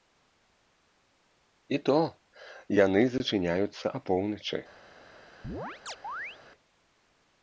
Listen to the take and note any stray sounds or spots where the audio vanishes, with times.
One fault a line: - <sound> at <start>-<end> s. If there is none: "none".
- chirp at 5.4-6.4 s